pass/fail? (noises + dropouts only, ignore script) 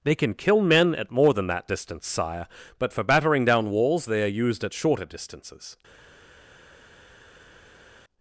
pass